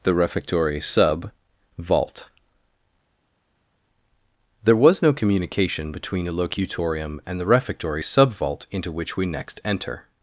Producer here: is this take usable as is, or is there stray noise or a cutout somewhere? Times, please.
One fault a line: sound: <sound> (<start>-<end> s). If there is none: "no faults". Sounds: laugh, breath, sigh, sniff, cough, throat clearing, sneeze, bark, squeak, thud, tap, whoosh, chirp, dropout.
no faults